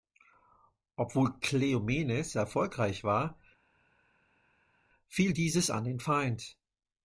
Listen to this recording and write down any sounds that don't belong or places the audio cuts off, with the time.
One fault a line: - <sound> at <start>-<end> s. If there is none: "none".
none